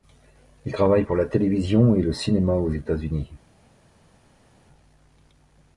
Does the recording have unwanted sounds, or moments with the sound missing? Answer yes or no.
no